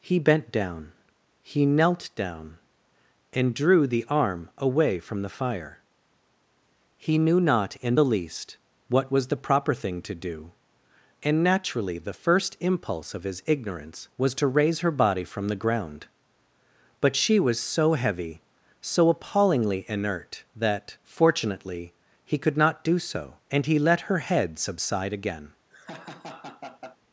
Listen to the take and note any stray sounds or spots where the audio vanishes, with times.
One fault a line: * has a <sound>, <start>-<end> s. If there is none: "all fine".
* has a laugh, 25.7-27.0 s